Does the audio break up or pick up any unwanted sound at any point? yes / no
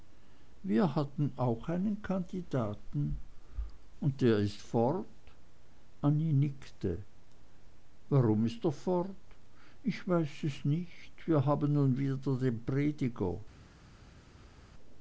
no